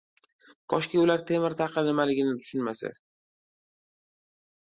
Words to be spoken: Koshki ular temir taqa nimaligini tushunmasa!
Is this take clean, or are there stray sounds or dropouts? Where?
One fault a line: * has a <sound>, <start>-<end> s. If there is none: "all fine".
all fine